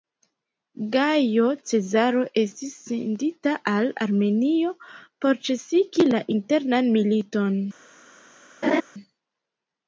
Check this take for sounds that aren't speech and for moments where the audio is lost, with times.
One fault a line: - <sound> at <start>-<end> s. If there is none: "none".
- laugh at 8.6-8.8 s